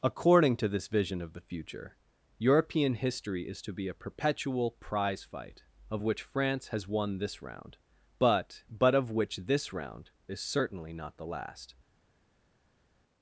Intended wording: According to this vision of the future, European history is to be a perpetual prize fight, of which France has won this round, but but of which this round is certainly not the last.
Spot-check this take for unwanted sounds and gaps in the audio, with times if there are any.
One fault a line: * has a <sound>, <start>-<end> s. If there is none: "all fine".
all fine